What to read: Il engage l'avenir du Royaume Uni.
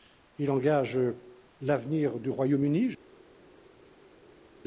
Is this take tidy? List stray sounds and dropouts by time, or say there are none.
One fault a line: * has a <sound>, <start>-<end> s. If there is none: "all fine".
all fine